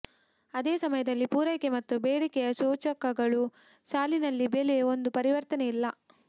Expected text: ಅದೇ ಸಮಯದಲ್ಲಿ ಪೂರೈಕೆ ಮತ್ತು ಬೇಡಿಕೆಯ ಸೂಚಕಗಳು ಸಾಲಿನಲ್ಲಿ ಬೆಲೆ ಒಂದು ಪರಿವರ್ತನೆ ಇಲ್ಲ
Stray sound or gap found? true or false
false